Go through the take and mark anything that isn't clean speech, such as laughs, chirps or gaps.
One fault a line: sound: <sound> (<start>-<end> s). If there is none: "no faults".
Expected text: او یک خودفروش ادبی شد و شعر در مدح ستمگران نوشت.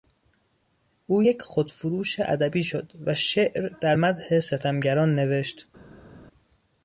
no faults